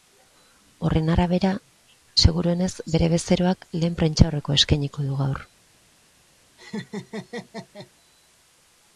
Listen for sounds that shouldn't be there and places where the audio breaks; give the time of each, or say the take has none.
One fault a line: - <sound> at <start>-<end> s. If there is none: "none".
- laugh at 6.6-7.9 s